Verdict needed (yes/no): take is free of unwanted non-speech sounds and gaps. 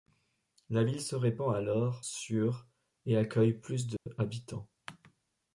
no